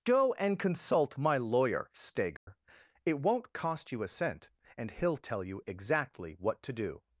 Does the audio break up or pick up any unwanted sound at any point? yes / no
yes